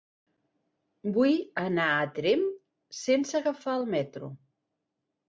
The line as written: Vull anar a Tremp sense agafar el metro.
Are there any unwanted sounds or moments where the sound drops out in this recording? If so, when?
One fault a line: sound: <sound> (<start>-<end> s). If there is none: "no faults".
no faults